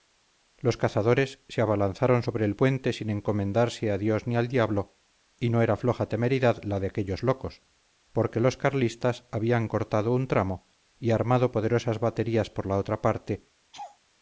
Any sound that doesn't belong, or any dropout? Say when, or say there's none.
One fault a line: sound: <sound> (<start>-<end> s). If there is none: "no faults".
sound: laugh (13.7-14.0 s)